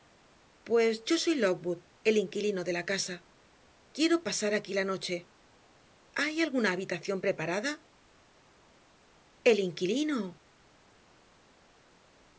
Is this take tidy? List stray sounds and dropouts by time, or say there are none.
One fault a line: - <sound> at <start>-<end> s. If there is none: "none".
none